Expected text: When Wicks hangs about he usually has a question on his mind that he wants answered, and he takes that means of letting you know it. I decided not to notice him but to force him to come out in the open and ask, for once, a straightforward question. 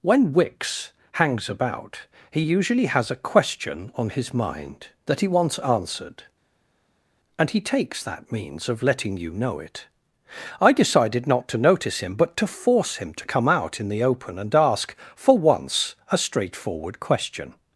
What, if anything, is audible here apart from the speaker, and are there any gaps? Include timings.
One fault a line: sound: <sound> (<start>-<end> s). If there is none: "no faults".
no faults